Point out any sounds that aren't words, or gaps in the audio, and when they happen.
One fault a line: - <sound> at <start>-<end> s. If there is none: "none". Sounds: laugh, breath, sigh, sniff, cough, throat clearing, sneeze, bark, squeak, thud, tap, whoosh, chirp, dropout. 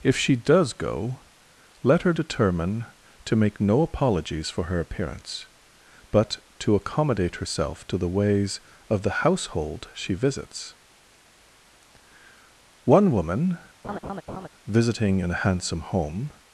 - laugh at 13.8-14.5 s